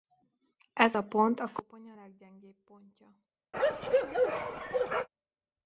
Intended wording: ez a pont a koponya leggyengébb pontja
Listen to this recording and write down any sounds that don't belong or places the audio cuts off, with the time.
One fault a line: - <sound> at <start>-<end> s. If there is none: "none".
- bark at 3.5-5.1 s